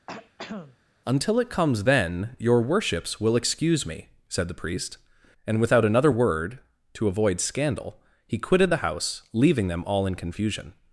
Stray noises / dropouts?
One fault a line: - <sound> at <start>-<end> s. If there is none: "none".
- throat clearing at 0.1-0.8 s